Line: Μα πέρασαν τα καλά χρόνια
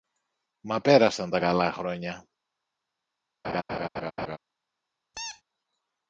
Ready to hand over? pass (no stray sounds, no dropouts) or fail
fail